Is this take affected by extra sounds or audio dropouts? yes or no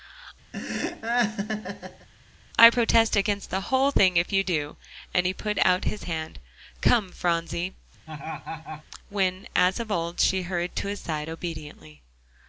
yes